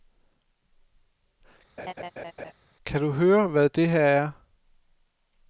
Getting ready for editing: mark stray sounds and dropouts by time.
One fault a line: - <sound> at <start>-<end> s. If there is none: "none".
- laugh at 1.8-2.5 s